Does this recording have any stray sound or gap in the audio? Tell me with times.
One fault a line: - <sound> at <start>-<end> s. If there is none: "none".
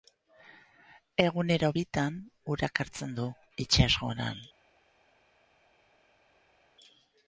none